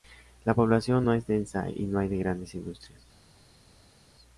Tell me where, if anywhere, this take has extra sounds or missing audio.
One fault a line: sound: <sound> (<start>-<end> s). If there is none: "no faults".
no faults